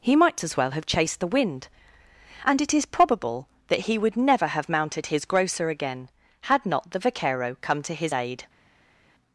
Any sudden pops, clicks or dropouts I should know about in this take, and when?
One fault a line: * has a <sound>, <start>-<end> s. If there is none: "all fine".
all fine